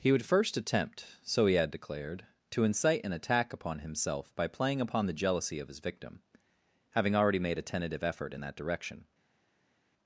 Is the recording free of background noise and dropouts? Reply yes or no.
yes